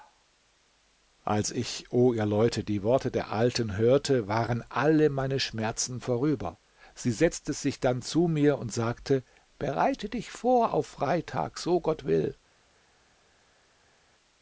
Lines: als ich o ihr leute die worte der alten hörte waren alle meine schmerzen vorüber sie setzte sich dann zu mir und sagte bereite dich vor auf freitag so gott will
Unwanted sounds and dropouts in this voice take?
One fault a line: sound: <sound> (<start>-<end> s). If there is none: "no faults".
no faults